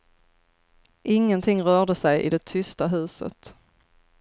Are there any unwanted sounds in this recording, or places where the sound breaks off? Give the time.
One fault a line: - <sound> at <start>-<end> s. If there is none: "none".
none